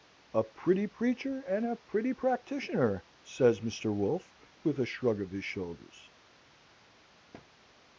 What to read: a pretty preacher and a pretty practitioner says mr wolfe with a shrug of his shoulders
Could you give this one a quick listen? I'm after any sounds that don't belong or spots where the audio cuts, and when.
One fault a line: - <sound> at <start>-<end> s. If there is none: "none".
- thud at 7.3-7.5 s